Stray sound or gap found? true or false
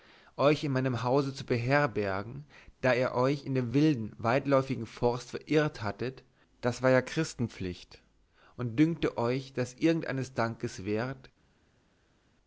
false